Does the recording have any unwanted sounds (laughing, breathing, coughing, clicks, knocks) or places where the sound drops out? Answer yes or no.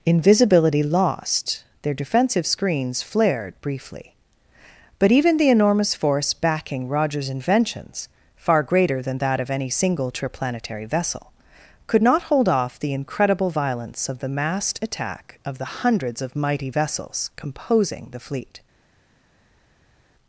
no